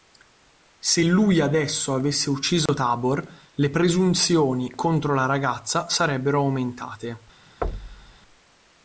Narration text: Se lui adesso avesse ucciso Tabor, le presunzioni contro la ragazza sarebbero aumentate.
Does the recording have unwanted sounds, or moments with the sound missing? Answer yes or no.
yes